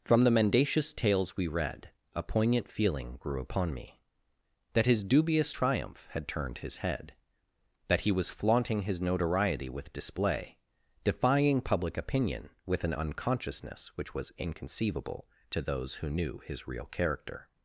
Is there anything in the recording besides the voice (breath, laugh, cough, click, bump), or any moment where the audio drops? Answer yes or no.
no